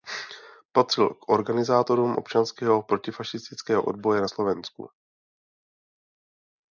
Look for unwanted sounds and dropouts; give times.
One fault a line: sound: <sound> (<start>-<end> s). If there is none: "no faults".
no faults